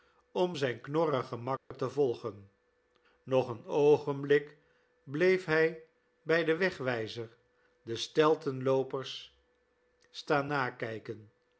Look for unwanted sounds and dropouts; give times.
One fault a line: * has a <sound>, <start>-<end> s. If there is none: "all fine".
* has a dropout, 1.6-1.7 s